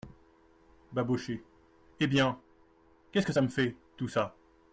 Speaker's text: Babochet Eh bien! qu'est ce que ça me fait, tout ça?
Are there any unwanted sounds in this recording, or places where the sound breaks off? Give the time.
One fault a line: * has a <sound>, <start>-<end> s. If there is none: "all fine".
all fine